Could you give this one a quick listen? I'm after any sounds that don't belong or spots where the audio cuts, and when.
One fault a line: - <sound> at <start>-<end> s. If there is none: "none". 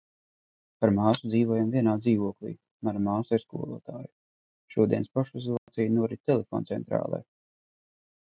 - dropout at 5.6-5.7 s